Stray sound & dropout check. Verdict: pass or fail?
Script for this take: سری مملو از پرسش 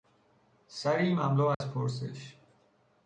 fail